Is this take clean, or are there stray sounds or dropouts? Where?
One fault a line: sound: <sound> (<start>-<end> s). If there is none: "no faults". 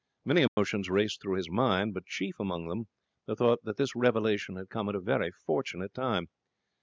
sound: dropout (0.5-0.6 s)